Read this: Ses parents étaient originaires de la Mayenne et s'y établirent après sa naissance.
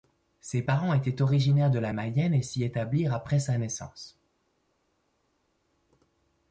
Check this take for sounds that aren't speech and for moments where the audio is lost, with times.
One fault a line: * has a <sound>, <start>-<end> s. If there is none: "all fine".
all fine